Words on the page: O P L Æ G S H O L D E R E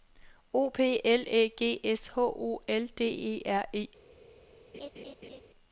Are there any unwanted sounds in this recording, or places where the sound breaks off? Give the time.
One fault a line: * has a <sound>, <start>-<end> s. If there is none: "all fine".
* has a laugh, 4.7-5.4 s